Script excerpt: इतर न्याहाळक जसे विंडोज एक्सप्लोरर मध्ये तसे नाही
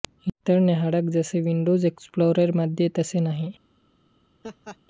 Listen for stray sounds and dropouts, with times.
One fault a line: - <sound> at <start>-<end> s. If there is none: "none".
- laugh at 4.4-4.8 s